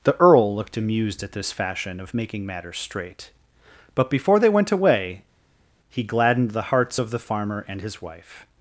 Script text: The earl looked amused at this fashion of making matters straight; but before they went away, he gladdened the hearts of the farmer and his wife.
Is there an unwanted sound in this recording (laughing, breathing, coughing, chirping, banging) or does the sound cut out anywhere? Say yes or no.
no